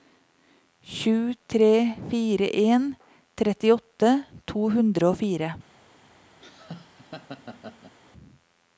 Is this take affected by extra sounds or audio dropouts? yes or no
yes